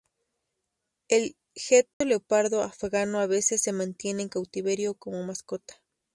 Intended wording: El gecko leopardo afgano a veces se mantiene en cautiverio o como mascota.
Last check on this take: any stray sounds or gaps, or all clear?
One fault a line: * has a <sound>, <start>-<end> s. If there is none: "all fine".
* has a dropout, 1.9-2.0 s